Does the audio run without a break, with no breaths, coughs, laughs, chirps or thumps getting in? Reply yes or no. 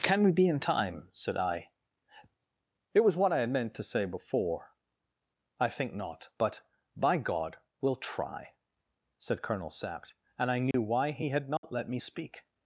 no